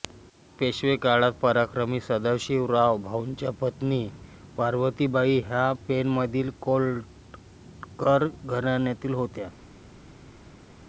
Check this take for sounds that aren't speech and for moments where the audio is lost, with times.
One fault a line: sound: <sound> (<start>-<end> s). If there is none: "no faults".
no faults